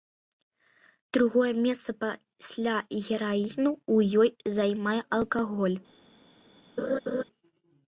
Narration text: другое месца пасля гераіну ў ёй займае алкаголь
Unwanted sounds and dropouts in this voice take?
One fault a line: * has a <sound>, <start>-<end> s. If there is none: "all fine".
* has a laugh, 6.8-7.2 s